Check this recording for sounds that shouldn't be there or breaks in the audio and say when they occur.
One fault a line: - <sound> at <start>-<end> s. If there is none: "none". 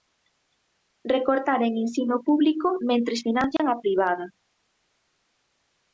- dropout at 3.6-3.6 s